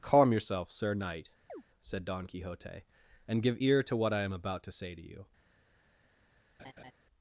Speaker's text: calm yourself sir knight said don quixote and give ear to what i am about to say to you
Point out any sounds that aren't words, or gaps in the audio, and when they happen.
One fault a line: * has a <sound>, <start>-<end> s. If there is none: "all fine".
* has a chirp, 1.5-1.6 s
* has a laugh, 6.6-6.9 s